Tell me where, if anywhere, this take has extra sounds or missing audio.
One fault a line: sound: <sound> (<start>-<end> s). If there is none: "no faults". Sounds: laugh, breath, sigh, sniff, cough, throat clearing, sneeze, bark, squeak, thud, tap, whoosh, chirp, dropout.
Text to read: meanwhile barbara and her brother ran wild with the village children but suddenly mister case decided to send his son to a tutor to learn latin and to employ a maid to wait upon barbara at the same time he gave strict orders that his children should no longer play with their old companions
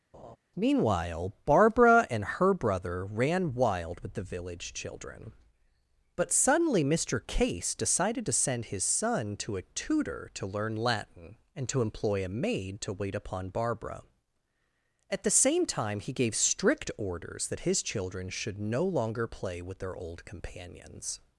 sound: laugh (0.1-0.4 s)